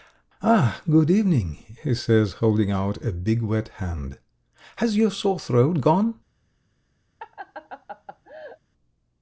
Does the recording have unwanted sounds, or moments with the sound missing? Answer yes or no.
yes